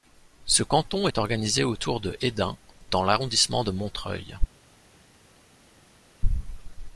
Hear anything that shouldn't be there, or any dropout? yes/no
no